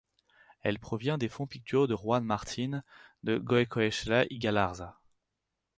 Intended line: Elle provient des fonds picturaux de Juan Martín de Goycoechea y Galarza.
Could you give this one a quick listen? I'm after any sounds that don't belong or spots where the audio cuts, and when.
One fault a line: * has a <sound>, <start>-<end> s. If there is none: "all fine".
all fine